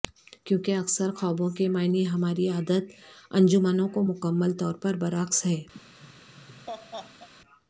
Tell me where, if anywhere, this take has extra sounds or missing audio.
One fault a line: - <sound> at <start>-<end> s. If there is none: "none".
- laugh at 5.7-7.3 s